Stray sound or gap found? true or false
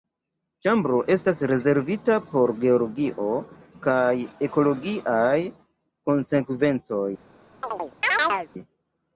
true